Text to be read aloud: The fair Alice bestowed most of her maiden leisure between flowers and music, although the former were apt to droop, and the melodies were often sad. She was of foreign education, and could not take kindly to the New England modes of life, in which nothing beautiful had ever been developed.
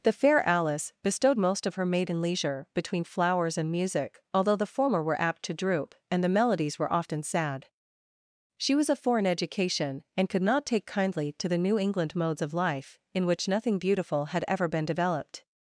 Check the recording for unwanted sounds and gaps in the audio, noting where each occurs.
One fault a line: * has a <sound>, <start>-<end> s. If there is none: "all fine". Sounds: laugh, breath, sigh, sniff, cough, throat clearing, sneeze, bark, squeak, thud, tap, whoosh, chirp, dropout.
all fine